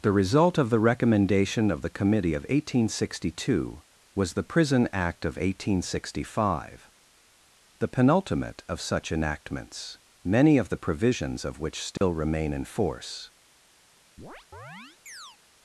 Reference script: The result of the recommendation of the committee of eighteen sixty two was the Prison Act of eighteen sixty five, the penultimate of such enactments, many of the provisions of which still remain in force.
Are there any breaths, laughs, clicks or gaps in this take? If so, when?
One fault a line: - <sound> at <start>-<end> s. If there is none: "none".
- dropout at 12.0-12.0 s
- chirp at 14.2-15.4 s